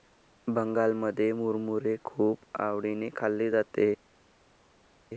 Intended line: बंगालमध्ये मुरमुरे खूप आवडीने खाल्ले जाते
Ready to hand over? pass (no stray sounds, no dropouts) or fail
pass